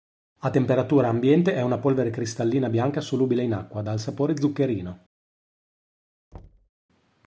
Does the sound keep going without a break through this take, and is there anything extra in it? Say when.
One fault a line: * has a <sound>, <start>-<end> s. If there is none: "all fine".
* has a thud, 6.3-6.7 s